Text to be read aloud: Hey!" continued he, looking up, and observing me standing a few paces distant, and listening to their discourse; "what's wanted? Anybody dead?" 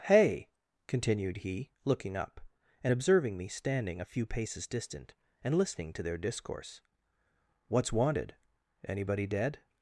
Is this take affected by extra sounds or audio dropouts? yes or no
no